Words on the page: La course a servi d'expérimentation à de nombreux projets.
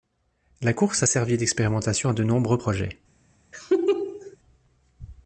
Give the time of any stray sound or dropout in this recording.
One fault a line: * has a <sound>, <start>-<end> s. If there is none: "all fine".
* has a laugh, 3.5-4.4 s